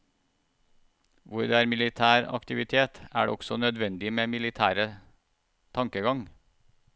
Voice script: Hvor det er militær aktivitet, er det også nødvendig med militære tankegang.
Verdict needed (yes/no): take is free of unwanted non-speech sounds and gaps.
yes